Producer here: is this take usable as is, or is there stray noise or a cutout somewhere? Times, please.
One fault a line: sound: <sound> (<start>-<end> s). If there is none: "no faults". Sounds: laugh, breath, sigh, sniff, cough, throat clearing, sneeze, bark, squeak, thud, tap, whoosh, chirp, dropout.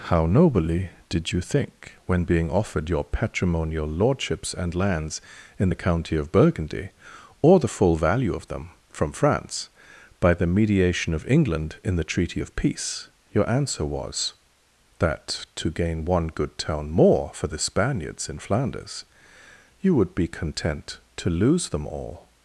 no faults